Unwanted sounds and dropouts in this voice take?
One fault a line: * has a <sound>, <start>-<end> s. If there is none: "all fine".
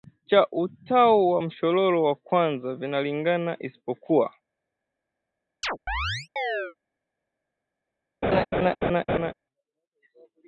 * has a chirp, 5.6-6.7 s
* has a laugh, 8.2-9.3 s